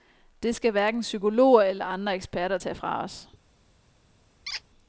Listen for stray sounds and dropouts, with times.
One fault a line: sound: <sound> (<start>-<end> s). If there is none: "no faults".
sound: squeak (4.5-4.6 s)